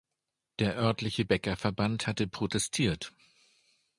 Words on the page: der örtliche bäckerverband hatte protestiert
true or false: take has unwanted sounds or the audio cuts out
false